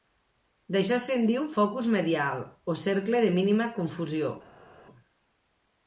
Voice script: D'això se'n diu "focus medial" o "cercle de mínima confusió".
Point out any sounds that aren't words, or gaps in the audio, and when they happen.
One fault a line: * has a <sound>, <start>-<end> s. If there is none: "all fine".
all fine